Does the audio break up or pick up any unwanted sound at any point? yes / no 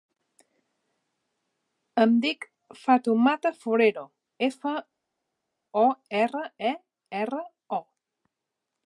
no